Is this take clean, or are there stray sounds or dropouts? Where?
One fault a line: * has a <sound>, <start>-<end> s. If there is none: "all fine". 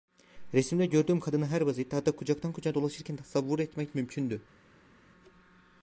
all fine